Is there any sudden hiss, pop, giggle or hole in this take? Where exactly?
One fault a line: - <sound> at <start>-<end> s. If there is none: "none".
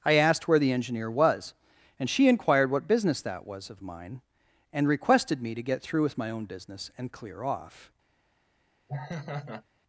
- laugh at 8.9-9.6 s